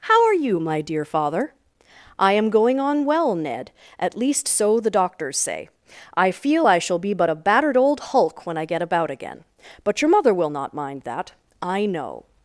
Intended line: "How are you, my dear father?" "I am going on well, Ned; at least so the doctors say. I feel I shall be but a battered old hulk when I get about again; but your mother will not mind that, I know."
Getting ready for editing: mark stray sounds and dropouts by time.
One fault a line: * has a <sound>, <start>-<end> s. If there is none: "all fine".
all fine